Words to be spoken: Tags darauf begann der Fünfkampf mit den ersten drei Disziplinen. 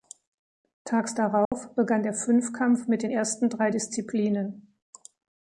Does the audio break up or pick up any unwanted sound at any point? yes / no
yes